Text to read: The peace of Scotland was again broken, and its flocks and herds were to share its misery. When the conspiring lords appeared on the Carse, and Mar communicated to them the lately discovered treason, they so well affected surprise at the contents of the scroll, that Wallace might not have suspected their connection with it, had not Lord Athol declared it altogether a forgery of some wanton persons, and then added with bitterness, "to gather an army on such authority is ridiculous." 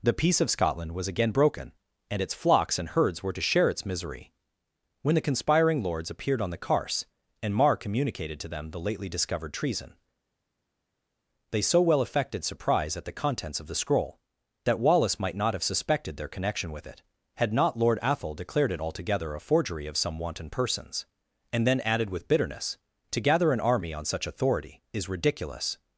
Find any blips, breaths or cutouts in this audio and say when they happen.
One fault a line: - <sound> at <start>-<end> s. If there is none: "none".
none